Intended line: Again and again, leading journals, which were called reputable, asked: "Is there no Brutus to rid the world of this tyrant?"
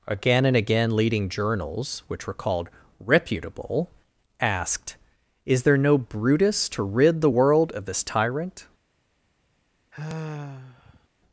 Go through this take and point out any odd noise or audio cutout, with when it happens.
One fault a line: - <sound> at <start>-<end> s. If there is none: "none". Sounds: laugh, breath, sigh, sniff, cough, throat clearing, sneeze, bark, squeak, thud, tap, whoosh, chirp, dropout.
- sigh at 9.9-11.1 s